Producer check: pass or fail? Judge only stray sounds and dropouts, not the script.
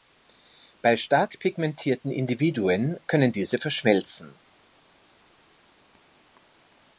pass